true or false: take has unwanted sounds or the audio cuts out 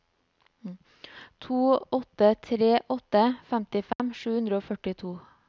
true